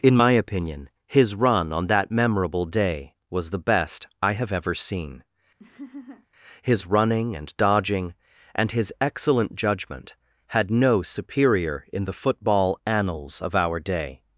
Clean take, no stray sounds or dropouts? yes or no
no